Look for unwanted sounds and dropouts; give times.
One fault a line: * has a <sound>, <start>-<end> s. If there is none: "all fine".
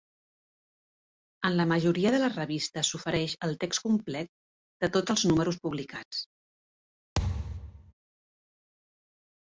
* has a thud, 7.2-7.9 s